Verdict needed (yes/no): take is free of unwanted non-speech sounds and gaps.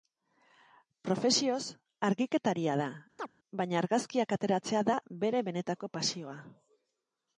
no